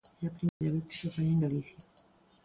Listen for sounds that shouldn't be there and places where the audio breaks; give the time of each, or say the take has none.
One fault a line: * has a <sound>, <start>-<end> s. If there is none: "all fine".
* has a dropout, 0.5-0.6 s